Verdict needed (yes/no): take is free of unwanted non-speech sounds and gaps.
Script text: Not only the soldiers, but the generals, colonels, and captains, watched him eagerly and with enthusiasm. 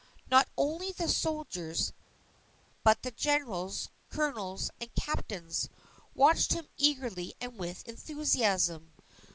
yes